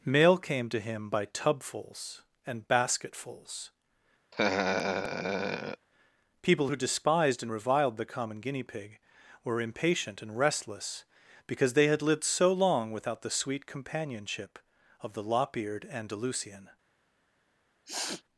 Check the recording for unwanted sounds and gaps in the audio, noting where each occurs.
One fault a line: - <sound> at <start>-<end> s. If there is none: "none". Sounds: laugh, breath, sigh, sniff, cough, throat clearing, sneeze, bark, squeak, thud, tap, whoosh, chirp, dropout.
- laugh at 4.3-5.9 s
- sniff at 17.9-18.2 s